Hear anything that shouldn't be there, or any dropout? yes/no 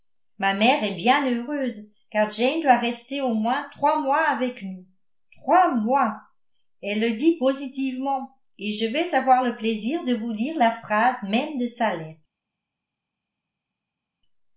no